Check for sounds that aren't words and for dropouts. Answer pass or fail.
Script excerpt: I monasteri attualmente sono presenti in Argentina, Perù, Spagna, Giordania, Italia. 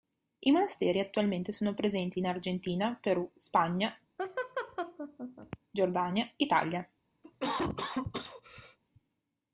fail